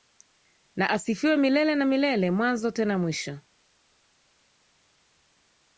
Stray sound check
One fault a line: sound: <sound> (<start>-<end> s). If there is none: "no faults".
no faults